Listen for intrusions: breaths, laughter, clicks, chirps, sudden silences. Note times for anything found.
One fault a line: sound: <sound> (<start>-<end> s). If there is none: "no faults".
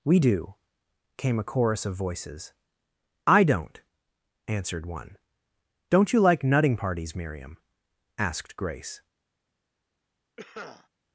sound: cough (10.4-10.9 s)